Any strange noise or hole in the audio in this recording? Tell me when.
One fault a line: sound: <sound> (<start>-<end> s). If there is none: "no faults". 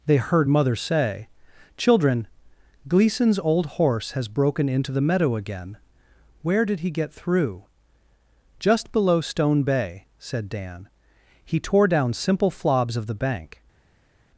no faults